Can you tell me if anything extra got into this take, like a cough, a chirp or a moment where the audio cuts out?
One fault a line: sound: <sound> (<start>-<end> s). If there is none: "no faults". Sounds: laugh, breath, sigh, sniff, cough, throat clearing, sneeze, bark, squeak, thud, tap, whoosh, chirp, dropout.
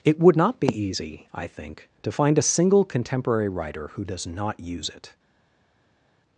no faults